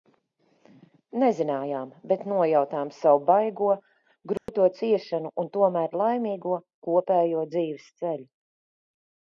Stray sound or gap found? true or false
true